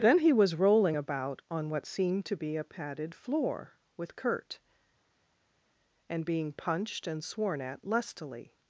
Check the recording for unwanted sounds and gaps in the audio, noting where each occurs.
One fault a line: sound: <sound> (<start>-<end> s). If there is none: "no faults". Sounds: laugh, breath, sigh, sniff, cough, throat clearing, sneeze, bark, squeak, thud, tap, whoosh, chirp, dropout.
no faults